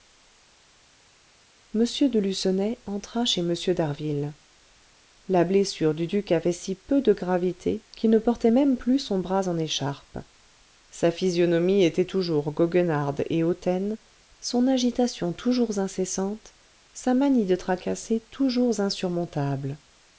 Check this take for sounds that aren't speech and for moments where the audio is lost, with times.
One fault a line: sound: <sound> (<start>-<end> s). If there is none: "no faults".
no faults